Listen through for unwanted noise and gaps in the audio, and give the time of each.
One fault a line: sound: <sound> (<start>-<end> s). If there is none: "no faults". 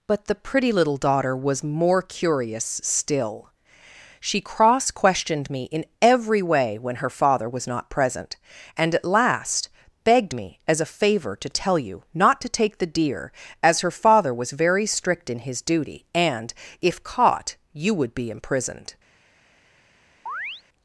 sound: chirp (20.3-20.6 s)